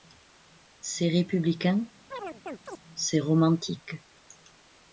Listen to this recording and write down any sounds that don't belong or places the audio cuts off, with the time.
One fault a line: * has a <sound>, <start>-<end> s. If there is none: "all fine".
* has a chirp, 2.1-2.8 s